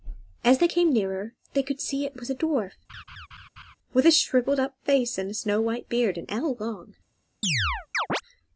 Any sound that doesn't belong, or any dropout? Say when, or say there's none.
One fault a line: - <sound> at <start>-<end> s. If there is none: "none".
- laugh at 2.9-3.8 s
- chirp at 7.4-8.2 s